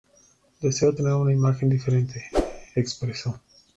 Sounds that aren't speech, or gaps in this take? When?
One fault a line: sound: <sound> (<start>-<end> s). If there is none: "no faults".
sound: whoosh (2.3-2.7 s)